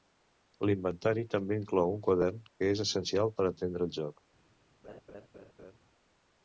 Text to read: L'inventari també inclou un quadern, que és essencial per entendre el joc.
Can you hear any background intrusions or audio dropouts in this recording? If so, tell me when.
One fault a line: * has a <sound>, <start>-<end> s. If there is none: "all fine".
* has a laugh, 4.8-5.8 s